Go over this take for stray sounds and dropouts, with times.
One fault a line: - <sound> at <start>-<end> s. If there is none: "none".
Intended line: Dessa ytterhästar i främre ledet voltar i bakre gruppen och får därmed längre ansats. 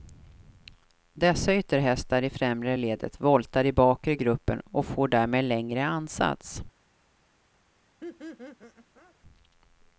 - laugh at 8.0-9.1 s